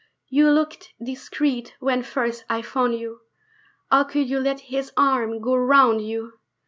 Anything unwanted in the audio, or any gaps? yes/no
no